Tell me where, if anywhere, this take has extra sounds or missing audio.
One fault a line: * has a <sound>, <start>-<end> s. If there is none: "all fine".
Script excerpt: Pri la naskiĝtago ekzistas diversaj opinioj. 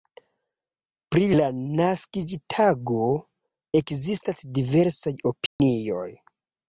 * has a dropout, 5.5-5.6 s